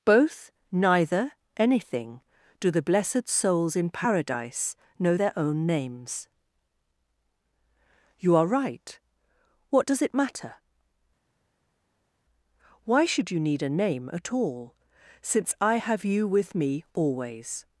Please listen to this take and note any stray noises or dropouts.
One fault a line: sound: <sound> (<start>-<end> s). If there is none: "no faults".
no faults